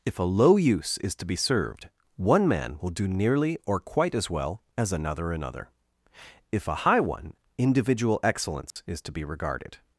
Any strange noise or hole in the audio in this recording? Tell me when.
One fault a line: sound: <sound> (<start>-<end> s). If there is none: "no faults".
sound: dropout (8.7-8.8 s)